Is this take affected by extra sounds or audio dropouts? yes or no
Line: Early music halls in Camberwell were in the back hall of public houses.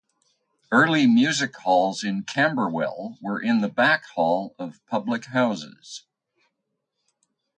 no